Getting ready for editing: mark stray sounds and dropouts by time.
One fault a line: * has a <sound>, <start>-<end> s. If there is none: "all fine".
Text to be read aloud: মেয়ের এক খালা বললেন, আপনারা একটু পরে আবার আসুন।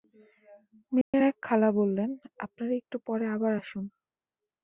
* has a dropout, 1.0-1.1 s